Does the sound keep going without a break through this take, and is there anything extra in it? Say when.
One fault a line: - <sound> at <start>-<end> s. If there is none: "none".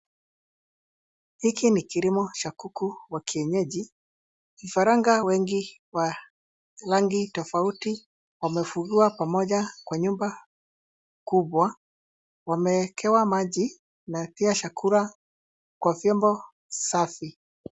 none